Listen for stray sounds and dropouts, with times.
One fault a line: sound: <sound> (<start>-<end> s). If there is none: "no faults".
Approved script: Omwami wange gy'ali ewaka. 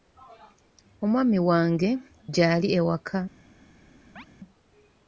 sound: chirp (4.2-4.3 s)